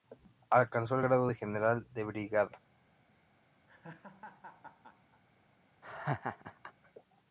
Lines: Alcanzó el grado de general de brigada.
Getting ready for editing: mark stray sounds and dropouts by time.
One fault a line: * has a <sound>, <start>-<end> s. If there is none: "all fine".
* has a laugh, 3.7-5.2 s
* has a laugh, 5.8-6.7 s